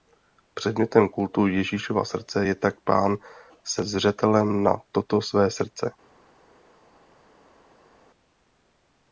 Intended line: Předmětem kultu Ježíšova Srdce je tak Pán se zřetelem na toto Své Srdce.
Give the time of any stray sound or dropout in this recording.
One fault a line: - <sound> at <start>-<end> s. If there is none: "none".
none